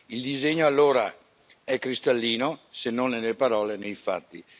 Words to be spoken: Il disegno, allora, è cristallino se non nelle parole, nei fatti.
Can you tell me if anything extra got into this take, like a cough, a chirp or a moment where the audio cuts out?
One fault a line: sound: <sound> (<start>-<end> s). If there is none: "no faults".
no faults